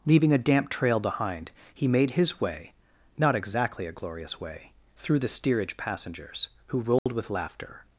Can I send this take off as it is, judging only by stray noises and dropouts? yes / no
no